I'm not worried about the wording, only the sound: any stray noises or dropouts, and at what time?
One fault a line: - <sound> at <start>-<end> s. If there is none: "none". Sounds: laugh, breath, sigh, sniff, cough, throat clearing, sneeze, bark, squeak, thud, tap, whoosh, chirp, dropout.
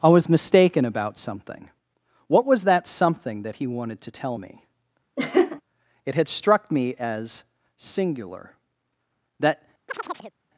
- laugh at 5.2-5.6 s
- chirp at 9.9-10.3 s